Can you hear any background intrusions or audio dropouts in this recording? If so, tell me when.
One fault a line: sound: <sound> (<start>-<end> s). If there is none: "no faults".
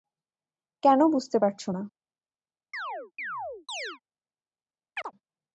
sound: chirp (2.7-4.0 s)
sound: chirp (5.0-5.1 s)